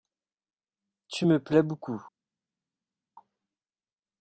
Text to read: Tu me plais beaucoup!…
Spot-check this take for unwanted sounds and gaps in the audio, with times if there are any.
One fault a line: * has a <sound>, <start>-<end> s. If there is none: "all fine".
all fine